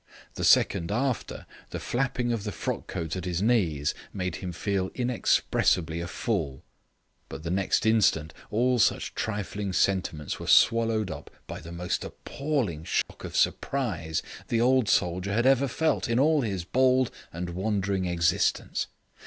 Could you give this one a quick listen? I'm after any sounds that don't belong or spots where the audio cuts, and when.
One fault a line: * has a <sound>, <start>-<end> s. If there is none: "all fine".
* has a dropout, 13.0-13.1 s